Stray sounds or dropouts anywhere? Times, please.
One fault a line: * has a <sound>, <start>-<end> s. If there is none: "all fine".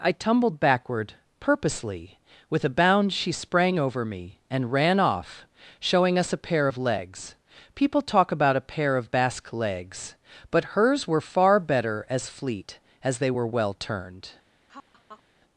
* has a laugh, 14.7-15.2 s